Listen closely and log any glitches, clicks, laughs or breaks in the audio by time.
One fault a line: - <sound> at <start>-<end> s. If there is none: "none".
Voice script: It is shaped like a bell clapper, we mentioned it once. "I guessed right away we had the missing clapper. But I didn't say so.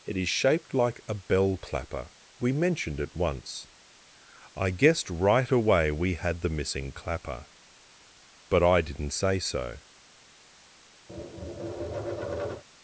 - tap at 11.1-12.6 s